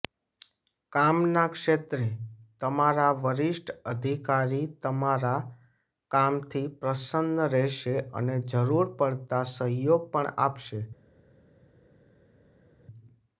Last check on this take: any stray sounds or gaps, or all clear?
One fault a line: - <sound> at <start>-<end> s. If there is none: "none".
none